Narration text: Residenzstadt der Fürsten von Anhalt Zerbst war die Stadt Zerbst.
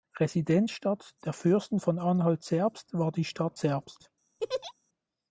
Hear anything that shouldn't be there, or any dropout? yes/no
yes